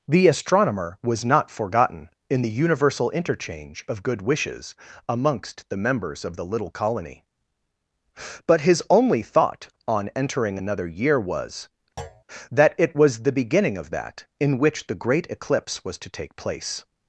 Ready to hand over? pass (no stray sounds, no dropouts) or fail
fail